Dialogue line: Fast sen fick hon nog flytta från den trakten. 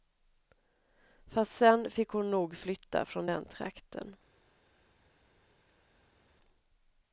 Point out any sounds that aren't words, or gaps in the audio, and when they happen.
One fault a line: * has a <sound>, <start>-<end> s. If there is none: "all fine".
all fine